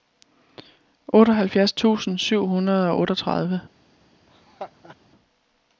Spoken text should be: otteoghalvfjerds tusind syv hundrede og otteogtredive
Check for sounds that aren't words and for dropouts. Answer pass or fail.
fail